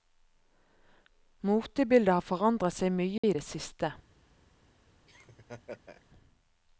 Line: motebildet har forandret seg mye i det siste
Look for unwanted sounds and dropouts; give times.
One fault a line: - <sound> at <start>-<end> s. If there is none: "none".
- dropout at 3.2-3.2 s
- laugh at 5.1-6.1 s